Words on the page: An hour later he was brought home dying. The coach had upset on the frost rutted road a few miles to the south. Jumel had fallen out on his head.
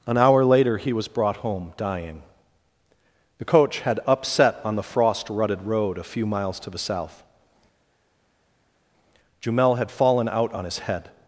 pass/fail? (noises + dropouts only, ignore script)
pass